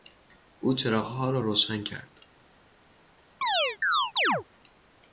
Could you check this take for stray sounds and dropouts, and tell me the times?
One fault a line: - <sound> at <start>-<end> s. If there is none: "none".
- chirp at 3.4-4.4 s